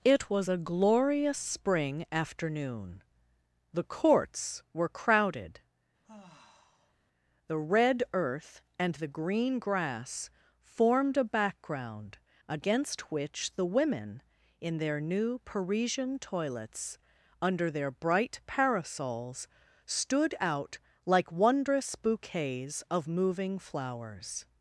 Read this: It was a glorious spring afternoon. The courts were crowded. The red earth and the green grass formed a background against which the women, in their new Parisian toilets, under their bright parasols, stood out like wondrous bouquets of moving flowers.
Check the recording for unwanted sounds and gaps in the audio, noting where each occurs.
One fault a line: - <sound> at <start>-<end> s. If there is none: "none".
- sigh at 6.0-7.0 s